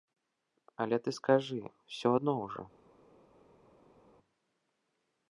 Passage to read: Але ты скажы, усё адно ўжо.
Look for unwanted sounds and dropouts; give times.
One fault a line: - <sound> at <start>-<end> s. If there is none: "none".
none